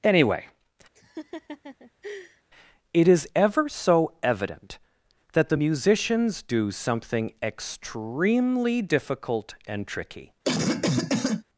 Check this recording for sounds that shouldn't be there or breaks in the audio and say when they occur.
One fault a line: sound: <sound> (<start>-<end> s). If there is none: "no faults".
sound: laugh (0.9-2.4 s)
sound: cough (10.4-11.4 s)